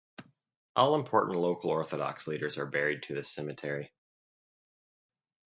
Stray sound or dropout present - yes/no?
no